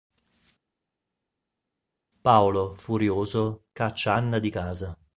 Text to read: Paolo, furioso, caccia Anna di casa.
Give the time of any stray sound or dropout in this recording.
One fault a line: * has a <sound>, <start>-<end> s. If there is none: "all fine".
all fine